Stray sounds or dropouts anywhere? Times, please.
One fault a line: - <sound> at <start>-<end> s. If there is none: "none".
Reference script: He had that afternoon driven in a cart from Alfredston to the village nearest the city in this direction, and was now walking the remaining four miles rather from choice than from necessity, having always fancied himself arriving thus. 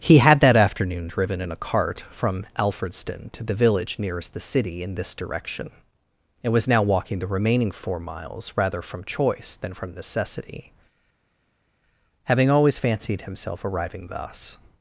none